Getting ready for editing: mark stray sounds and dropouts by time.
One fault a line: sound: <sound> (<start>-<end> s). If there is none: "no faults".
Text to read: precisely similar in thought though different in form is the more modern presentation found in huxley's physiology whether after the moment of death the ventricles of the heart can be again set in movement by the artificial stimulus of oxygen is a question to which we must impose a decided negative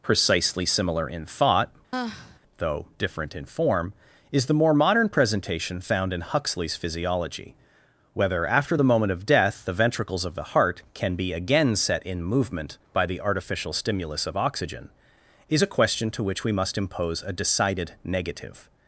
sound: sigh (1.9-2.4 s)